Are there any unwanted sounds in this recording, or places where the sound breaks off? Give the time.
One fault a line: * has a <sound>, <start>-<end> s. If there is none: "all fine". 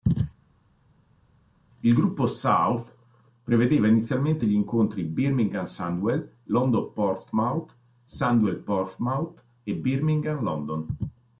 all fine